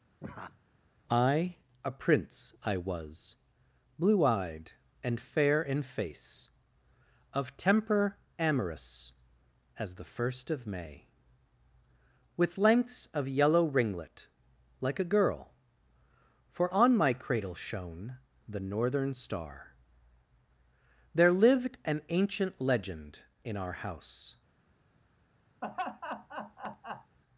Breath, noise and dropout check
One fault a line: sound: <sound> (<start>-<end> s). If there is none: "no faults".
sound: laugh (0.2-0.6 s)
sound: laugh (25.6-27.2 s)